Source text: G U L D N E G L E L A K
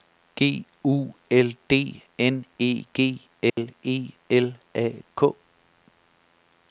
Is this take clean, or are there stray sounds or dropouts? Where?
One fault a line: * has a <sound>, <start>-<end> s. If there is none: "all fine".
* has a dropout, 3.5-3.6 s